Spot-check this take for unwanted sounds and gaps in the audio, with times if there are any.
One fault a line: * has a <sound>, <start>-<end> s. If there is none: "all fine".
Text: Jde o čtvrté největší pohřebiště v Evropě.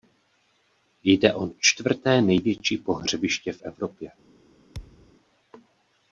* has a thud, 4.7-5.1 s